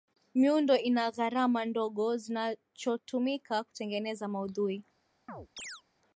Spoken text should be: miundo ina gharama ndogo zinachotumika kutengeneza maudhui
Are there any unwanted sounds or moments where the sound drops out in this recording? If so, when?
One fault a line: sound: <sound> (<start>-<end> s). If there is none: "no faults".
sound: chirp (5.3-5.8 s)